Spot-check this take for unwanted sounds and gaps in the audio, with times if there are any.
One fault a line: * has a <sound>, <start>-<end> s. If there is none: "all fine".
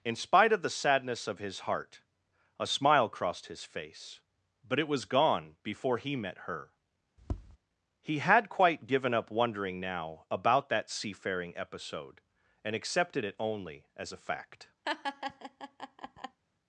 * has a tap, 7.2-7.6 s
* has a laugh, 14.8-16.4 s